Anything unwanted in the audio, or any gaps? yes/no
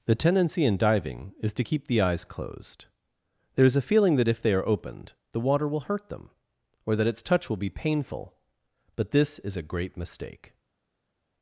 no